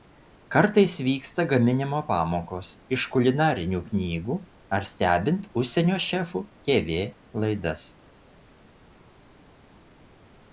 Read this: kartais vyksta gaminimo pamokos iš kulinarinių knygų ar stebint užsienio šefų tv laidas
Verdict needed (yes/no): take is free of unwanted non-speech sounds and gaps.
yes